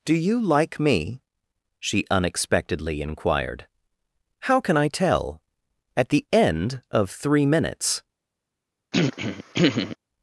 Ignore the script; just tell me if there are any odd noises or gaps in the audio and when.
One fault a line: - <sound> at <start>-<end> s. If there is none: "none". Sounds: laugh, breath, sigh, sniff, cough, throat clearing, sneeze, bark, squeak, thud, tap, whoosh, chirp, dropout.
- throat clearing at 8.9-10.0 s